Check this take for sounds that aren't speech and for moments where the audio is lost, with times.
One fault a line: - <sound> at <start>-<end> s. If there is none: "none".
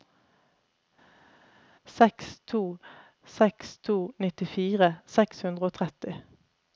none